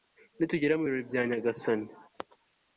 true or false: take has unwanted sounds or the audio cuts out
false